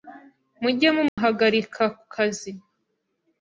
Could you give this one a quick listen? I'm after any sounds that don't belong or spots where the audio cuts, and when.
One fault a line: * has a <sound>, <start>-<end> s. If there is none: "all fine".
* has a dropout, 1.1-1.2 s